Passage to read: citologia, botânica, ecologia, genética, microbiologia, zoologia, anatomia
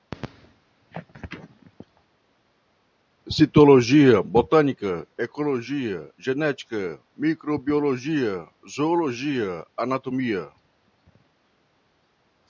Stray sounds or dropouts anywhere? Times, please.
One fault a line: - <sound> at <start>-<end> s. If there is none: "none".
none